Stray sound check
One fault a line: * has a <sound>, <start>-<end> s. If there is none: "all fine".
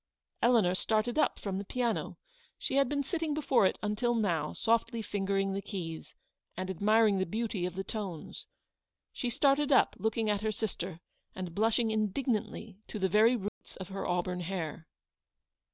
* has a dropout, 13.5-13.6 s